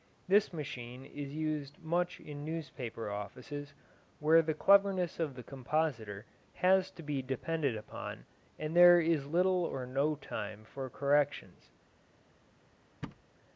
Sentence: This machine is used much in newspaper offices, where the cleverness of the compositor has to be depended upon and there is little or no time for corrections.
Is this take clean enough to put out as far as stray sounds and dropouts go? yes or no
no